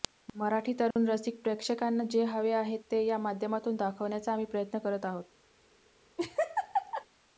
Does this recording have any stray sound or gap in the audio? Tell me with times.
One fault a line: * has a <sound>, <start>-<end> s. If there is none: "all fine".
* has a dropout, 0.9-1.0 s
* has a laugh, 6.2-7.0 s